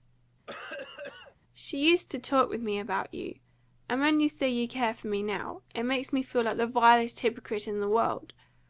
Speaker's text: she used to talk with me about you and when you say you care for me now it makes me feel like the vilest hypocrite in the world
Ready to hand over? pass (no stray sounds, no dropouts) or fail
fail